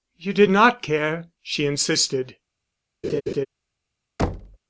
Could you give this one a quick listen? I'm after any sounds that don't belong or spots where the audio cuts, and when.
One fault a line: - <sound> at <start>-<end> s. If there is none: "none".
- laugh at 3.0-3.5 s
- thud at 4.2-4.6 s